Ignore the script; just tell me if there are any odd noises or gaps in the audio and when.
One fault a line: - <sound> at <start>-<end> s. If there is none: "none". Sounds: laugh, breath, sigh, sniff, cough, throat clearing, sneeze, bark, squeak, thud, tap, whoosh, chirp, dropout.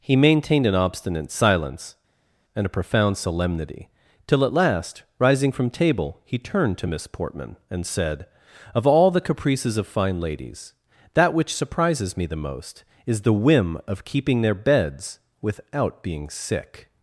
none